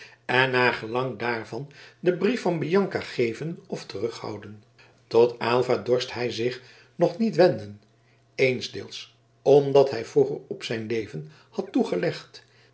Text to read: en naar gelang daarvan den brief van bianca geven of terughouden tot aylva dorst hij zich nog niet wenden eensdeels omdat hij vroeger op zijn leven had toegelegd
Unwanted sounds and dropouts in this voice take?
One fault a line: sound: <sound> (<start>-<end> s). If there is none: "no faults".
no faults